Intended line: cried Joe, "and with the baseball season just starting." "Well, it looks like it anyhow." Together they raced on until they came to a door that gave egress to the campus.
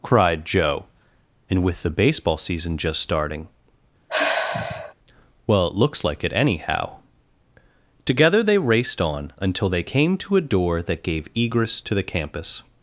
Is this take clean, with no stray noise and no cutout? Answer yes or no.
no